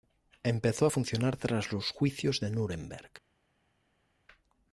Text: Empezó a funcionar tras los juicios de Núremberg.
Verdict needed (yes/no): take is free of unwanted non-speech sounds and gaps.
yes